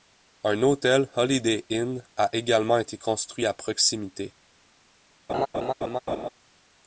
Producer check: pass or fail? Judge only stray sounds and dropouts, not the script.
fail